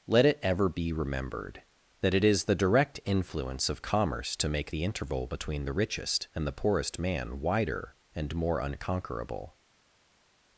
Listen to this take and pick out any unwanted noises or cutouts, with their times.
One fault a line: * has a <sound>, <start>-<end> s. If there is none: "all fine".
all fine